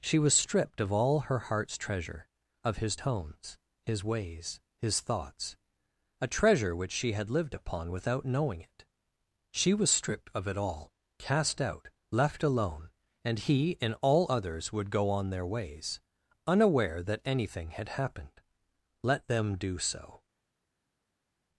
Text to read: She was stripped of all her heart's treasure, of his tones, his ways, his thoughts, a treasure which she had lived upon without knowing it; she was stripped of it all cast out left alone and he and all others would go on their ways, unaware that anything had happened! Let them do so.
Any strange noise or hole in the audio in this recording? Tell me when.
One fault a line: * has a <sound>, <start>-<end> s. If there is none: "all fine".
all fine